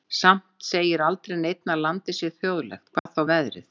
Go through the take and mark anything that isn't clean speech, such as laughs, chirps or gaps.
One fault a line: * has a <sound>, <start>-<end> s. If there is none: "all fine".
* has a dropout, 3.0-3.1 s